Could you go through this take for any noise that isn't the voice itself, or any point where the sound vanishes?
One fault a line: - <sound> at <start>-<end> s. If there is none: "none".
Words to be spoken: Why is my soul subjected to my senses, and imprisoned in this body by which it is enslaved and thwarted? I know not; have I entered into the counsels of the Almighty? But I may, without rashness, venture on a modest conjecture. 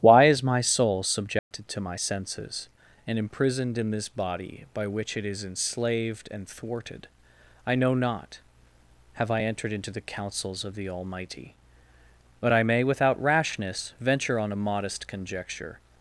- dropout at 1.4-1.5 s